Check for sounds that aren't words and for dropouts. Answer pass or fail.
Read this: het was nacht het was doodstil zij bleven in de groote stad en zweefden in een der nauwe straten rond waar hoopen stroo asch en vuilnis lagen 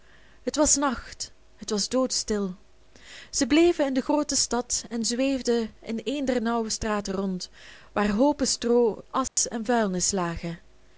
fail